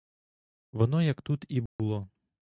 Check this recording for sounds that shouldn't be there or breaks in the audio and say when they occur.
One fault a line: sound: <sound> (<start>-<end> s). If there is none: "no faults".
sound: dropout (1.7-1.8 s)